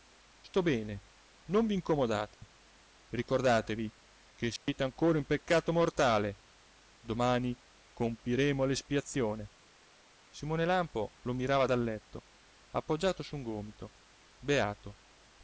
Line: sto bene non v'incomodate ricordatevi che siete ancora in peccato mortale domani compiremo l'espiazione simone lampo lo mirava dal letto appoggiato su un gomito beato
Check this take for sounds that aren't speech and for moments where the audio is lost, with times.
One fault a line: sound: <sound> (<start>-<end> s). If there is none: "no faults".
sound: dropout (2.3-2.4 s)
sound: dropout (4.6-4.7 s)